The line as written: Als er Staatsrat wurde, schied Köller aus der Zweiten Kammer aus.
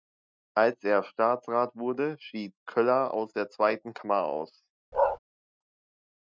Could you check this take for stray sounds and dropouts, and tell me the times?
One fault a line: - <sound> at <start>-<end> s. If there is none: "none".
- bark at 4.9-5.2 s